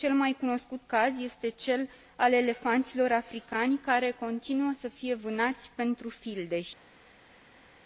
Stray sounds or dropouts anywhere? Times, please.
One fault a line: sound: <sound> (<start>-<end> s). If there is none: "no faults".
no faults